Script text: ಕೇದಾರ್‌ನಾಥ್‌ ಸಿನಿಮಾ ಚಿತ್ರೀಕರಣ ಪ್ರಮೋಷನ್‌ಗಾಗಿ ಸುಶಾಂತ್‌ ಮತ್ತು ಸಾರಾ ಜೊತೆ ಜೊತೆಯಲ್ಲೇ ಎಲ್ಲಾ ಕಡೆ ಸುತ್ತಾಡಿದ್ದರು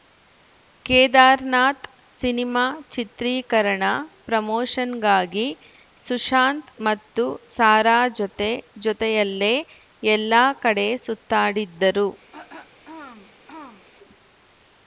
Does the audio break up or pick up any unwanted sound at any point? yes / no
yes